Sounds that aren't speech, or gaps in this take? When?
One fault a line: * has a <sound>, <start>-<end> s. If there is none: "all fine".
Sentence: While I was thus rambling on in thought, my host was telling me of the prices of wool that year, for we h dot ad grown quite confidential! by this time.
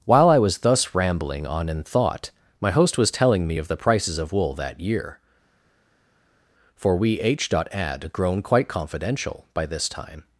all fine